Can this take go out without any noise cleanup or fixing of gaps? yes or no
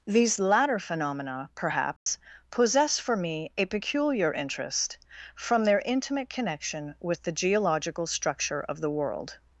no